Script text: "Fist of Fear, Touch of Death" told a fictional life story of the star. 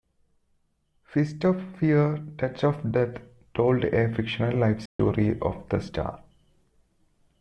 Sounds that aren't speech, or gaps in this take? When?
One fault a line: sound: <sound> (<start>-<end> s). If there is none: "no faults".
sound: dropout (4.9-5.0 s)